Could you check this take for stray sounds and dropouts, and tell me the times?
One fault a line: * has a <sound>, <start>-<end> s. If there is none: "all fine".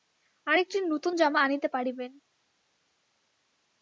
all fine